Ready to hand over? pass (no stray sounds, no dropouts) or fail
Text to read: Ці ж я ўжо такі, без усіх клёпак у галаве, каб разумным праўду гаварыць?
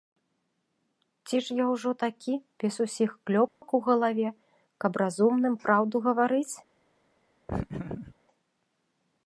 fail